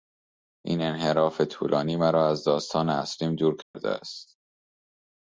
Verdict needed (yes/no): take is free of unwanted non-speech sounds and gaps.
no